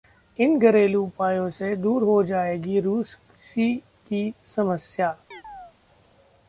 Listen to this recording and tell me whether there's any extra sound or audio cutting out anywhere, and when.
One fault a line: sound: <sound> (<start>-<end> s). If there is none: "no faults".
sound: chirp (5.3-5.7 s)